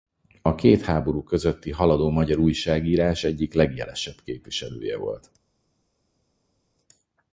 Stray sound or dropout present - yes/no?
no